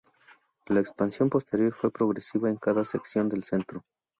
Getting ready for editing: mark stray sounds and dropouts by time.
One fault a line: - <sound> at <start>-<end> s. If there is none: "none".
none